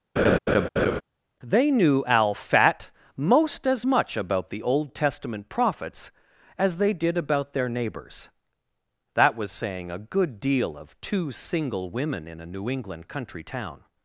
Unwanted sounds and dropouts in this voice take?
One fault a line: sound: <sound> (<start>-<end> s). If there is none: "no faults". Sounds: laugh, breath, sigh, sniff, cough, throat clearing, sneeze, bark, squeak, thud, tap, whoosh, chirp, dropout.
sound: laugh (0.2-1.0 s)